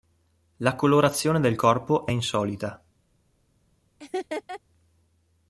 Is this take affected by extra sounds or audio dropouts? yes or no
yes